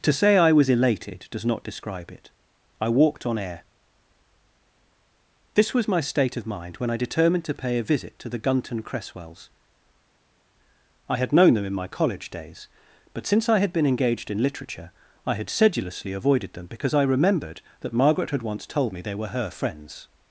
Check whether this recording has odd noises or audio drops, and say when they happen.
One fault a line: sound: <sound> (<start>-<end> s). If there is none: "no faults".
no faults